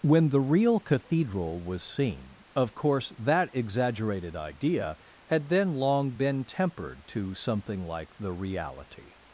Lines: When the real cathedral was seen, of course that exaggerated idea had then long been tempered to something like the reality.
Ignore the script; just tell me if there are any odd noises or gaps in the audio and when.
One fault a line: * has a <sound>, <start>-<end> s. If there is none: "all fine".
all fine